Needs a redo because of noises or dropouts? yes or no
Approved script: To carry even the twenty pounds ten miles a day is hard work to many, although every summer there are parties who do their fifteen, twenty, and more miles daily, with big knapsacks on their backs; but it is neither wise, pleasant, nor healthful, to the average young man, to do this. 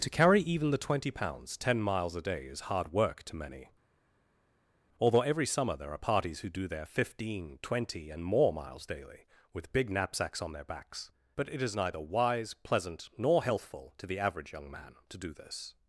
no